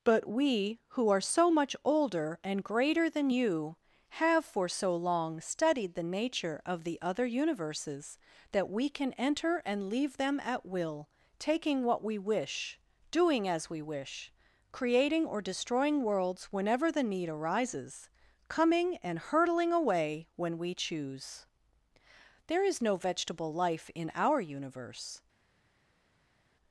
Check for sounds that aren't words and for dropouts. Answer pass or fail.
pass